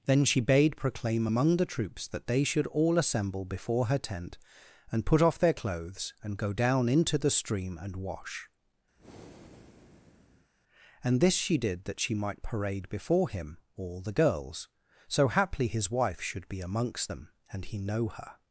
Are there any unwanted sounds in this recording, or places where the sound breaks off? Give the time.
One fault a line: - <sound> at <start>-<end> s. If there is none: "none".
- breath at 9.0-10.5 s